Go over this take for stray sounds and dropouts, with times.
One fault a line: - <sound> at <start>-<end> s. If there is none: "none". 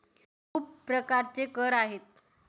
none